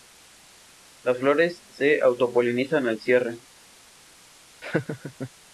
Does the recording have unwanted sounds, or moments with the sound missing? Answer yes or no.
yes